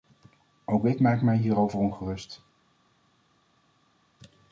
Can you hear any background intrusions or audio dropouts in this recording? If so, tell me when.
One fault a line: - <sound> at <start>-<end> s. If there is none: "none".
none